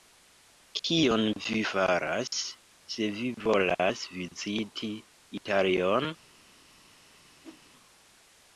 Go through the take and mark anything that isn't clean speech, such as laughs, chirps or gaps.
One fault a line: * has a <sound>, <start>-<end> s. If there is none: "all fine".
* has a whoosh, 7.4-7.6 s